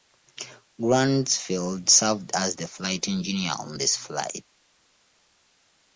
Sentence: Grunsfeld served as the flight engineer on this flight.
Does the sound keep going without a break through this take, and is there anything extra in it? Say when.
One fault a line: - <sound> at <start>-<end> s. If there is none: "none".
none